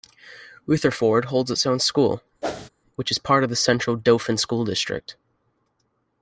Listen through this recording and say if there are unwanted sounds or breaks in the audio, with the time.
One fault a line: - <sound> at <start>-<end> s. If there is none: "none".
- whoosh at 2.4-2.7 s